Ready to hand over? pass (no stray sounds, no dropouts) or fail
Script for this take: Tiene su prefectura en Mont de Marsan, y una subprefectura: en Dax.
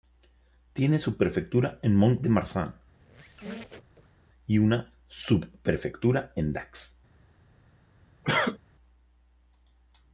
fail